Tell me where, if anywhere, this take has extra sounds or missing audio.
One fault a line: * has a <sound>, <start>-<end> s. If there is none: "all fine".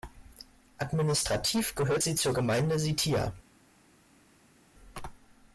all fine